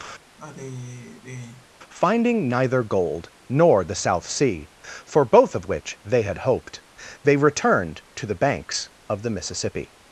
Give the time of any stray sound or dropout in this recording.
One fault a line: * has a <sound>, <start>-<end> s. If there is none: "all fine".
* has a sigh, 0.4-1.7 s